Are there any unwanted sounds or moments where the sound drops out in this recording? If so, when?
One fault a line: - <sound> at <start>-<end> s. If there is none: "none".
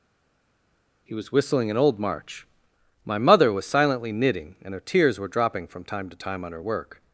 none